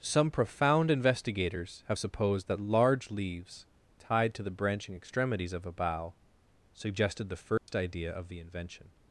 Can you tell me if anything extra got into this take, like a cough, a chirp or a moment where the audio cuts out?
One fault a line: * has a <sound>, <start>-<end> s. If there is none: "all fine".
* has a dropout, 7.6-7.7 s